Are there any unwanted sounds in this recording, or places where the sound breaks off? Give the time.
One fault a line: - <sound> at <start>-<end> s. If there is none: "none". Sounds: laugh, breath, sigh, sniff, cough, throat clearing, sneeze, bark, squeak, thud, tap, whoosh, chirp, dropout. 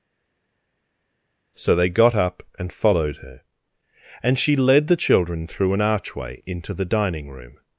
none